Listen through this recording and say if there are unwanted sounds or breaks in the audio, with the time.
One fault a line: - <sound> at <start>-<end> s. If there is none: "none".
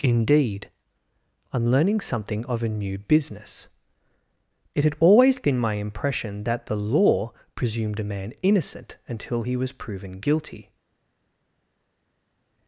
none